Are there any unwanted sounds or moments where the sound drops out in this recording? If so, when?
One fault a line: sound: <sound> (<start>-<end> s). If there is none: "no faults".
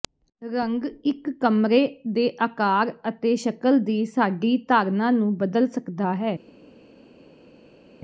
no faults